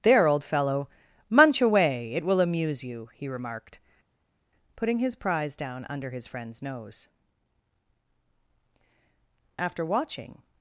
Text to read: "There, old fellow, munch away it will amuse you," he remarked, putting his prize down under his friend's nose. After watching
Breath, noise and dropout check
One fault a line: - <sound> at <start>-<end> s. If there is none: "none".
none